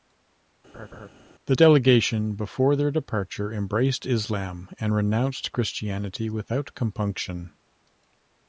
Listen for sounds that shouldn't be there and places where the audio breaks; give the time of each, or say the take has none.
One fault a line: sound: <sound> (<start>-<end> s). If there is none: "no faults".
sound: laugh (0.7-1.1 s)